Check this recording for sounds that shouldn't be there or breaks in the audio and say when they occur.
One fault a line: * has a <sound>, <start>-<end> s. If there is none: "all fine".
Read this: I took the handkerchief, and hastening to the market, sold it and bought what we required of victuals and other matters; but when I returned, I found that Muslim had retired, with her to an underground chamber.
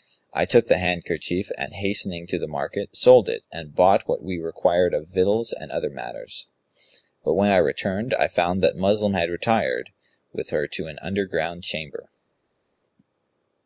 all fine